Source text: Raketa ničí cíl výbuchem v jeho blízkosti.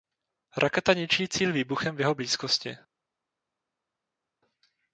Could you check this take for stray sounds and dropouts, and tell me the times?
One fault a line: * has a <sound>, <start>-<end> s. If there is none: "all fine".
all fine